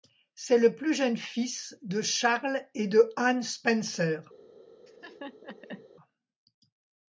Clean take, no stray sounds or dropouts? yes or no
no